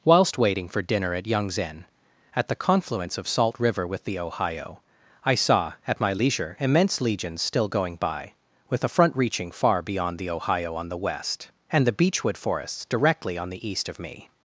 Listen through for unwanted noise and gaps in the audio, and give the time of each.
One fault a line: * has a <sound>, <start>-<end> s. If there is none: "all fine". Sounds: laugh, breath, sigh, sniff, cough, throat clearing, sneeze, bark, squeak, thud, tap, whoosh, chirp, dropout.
all fine